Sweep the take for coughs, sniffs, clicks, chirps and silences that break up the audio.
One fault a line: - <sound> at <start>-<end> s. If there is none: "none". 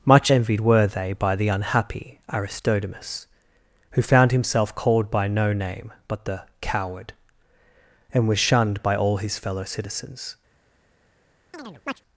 - chirp at 11.5-12.0 s